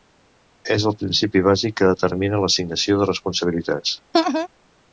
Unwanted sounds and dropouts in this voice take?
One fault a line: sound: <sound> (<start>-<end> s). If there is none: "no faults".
sound: laugh (4.1-4.5 s)